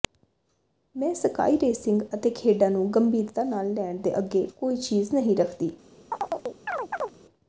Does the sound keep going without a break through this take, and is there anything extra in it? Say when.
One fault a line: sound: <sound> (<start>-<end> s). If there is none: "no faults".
sound: chirp (6.1-7.2 s)